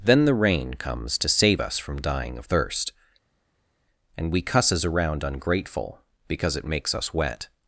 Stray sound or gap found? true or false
false